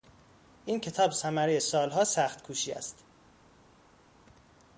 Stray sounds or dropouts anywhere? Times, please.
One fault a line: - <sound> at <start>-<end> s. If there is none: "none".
none